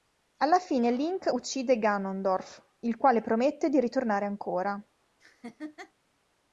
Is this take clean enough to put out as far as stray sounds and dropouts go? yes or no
no